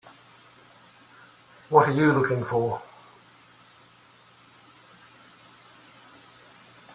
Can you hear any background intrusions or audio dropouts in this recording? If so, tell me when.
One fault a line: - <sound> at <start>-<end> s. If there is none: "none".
none